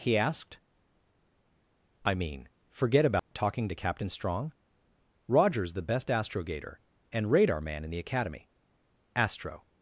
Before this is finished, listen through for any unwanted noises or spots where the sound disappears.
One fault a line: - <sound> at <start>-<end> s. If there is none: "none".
- dropout at 3.2-3.3 s